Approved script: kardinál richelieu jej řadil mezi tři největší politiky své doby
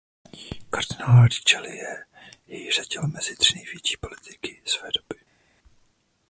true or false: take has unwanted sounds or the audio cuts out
false